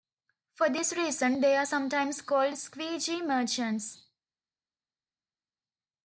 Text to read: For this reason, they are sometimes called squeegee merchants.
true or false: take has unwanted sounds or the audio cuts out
false